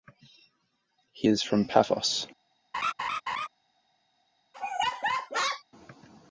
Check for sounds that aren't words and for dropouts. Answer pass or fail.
fail